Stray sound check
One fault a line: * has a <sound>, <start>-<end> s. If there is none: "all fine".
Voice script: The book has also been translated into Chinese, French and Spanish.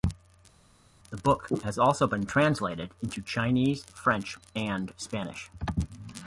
all fine